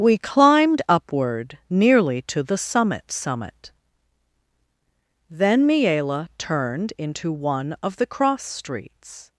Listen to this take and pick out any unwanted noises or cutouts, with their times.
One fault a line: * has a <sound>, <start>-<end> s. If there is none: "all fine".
all fine